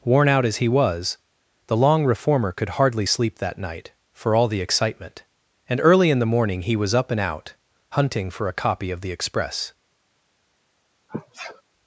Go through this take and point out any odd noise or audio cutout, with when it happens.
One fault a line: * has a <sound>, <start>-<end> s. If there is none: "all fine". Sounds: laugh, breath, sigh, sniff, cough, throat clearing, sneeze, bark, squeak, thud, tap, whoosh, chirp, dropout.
* has a sneeze, 11.1-11.6 s